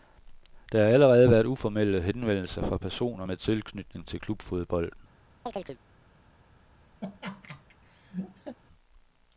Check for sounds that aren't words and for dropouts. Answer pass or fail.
fail